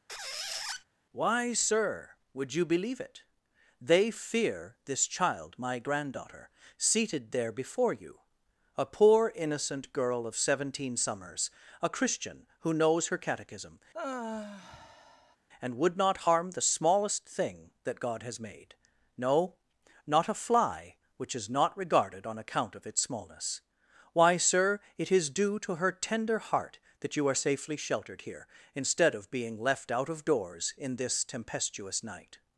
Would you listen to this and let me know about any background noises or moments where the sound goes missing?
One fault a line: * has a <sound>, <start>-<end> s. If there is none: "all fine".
* has a squeak, 0.1-0.8 s
* has a sigh, 13.9-15.4 s